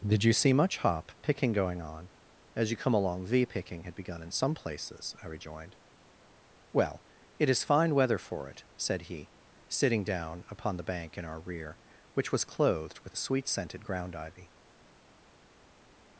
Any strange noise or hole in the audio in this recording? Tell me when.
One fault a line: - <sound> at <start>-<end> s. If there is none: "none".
none